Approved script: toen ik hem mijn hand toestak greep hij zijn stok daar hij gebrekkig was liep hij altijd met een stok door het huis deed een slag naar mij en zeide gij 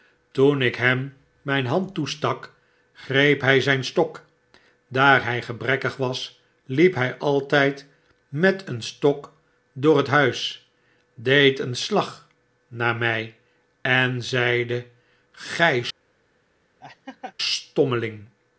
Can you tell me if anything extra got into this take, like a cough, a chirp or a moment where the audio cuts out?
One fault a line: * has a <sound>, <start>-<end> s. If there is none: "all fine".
* has a laugh, 16.8-17.3 s